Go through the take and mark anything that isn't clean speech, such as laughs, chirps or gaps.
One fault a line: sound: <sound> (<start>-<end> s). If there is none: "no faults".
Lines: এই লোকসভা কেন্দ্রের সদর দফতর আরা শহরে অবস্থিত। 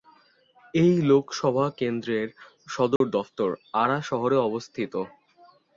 sound: dropout (3.0-3.0 s)